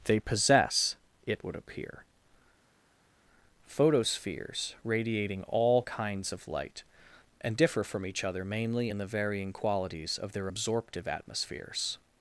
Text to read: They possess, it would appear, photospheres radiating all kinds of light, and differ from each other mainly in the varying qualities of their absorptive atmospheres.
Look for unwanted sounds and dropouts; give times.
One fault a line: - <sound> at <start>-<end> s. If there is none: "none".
none